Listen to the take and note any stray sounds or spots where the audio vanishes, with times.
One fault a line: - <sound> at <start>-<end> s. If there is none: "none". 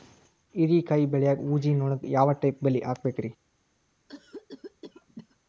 - cough at 4.1-5.4 s